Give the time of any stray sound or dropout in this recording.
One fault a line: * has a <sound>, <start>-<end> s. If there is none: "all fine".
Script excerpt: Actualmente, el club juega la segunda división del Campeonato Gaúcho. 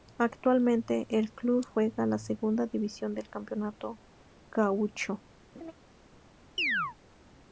* has a laugh, 5.5-5.7 s
* has a chirp, 6.6-7.0 s